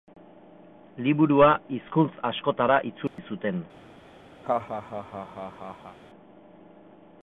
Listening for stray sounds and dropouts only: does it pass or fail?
fail